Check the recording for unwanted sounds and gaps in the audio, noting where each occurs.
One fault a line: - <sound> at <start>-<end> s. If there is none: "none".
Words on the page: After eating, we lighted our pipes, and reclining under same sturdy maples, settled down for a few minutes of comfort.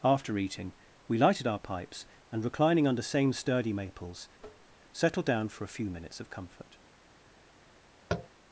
- tap at 4.4-4.8 s
- tap at 8.1-8.3 s